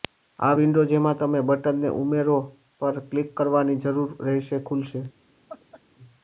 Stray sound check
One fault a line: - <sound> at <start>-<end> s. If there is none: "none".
- laugh at 5.5-5.8 s